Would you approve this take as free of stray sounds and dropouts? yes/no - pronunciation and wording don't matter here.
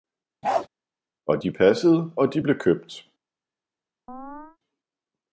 no